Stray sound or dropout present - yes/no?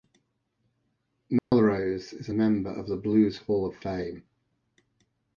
yes